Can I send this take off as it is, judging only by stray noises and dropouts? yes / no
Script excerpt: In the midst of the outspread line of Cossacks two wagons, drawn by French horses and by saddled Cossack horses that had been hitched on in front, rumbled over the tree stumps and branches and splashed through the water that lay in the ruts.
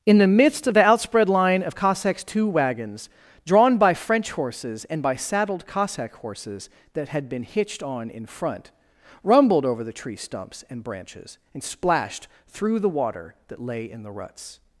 yes